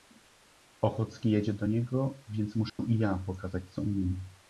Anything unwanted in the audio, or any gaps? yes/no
yes